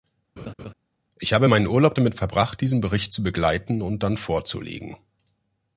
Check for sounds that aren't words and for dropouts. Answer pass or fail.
fail